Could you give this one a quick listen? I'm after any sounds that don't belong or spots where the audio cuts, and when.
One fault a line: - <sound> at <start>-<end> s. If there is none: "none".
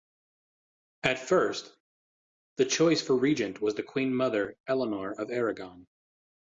none